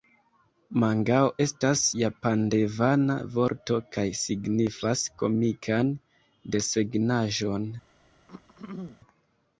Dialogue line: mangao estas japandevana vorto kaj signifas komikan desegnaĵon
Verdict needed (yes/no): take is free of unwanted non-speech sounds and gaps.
no